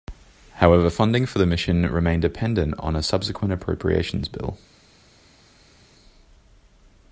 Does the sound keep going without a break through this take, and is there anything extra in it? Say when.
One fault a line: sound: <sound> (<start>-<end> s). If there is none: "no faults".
no faults